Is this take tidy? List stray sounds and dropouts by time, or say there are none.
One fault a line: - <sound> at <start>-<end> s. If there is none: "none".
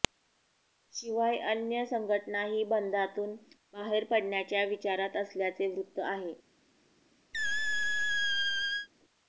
- squeak at 7.3-8.9 s